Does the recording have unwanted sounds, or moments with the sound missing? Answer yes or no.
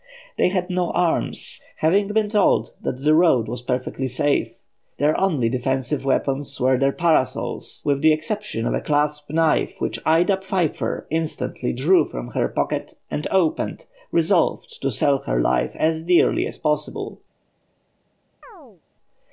yes